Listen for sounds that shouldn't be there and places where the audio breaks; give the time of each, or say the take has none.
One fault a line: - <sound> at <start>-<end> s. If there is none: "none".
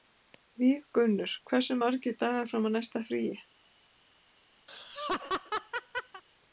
- laugh at 4.7-6.2 s